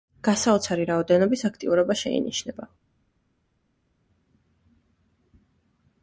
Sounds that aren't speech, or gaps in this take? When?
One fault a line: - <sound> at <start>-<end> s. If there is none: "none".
none